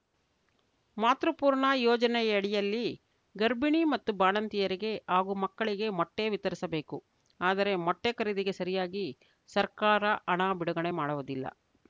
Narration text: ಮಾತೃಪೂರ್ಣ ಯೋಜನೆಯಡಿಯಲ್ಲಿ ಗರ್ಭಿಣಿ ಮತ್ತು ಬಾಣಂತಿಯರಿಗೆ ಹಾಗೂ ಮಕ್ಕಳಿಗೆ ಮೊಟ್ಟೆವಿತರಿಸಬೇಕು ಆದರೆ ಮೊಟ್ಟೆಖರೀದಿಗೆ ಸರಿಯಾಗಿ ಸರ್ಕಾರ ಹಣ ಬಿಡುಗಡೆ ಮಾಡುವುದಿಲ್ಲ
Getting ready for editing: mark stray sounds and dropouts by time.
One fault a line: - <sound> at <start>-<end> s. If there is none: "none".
none